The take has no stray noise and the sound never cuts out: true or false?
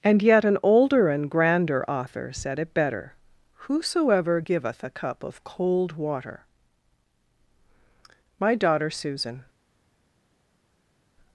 true